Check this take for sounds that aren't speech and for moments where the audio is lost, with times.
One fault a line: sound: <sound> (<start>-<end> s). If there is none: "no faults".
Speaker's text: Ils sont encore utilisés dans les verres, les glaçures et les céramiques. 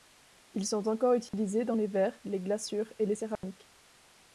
sound: dropout (1.3-1.3 s)
sound: dropout (3.4-3.4 s)